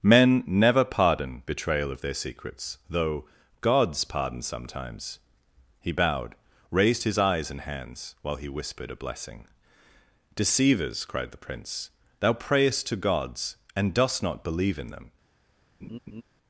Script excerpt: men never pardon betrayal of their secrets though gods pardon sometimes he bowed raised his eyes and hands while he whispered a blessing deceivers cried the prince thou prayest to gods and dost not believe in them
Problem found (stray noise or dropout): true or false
true